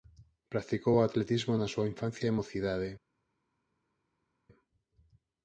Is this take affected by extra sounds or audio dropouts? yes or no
no